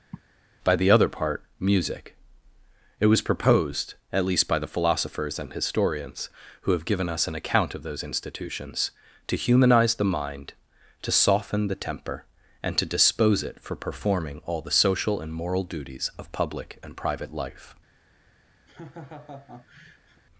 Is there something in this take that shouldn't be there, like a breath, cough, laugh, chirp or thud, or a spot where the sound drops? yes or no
yes